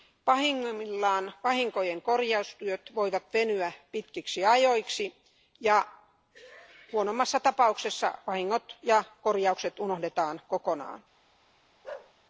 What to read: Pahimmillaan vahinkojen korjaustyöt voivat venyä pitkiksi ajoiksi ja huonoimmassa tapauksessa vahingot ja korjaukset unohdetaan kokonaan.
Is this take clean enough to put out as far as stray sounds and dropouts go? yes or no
no